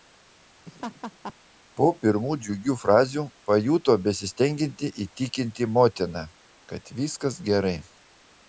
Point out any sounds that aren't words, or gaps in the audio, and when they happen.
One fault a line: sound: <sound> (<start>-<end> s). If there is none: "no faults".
sound: laugh (0.7-1.3 s)